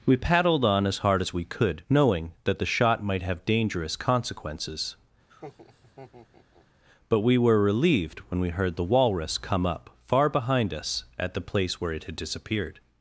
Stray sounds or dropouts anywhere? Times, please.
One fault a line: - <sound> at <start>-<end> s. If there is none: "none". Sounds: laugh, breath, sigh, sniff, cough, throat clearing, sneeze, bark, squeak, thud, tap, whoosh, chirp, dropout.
- laugh at 5.3-6.7 s